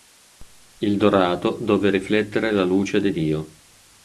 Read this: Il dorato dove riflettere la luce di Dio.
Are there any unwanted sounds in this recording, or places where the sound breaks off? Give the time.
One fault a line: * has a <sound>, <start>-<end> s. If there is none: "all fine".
all fine